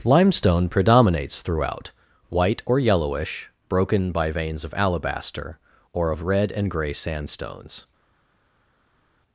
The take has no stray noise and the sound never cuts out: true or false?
true